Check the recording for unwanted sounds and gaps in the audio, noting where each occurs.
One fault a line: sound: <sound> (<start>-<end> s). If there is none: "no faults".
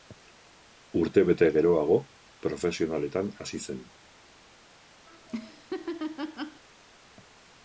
sound: laugh (5.1-6.6 s)